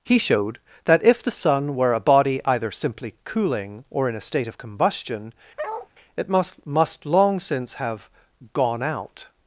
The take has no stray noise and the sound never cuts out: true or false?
false